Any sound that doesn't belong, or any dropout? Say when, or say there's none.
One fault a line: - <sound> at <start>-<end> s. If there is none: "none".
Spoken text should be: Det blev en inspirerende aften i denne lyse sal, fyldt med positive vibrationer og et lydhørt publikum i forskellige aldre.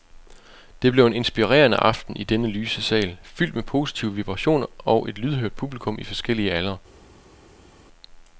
none